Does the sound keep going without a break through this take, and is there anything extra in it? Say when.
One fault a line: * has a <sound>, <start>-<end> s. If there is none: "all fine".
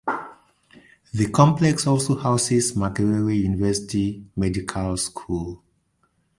all fine